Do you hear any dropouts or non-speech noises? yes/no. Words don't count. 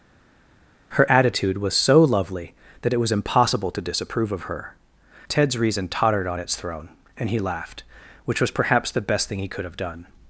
no